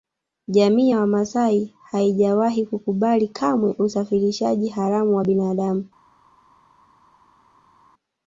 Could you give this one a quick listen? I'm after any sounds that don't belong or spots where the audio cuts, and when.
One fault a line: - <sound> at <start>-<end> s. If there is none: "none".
none